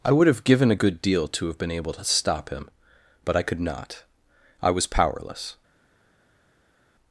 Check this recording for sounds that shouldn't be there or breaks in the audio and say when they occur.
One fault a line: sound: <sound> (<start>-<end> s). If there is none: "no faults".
no faults